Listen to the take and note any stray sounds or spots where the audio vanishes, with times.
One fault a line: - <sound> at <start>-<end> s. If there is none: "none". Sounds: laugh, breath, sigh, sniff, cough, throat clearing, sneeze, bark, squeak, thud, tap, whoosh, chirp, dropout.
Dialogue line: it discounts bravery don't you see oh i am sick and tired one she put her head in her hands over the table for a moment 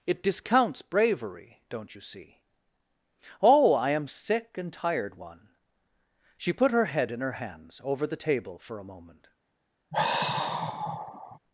- sigh at 9.9-11.4 s